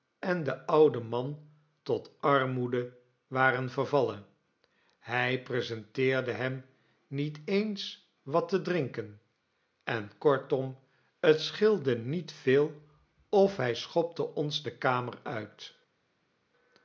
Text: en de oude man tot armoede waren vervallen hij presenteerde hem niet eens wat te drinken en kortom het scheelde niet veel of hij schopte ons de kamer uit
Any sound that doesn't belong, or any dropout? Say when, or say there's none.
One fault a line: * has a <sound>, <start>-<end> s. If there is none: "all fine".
all fine